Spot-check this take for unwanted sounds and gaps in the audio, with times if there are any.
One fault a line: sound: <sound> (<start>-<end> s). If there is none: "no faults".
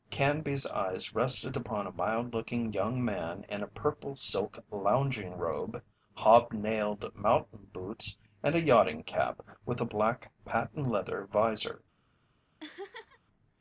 sound: laugh (12.6-13.2 s)